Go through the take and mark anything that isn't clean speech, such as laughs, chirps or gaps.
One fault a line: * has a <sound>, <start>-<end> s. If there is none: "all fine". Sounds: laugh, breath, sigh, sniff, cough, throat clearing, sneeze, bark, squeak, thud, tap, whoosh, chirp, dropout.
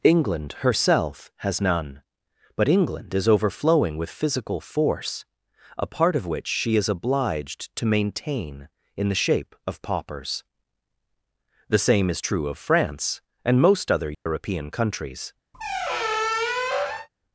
* has a dropout, 14.1-14.3 s
* has a squeak, 15.5-17.1 s